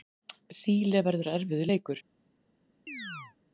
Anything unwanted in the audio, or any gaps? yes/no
yes